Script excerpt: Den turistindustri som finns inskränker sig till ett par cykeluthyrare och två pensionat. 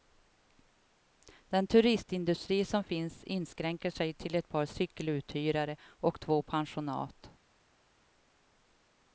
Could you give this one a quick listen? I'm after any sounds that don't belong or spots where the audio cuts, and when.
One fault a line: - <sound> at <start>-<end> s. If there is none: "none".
none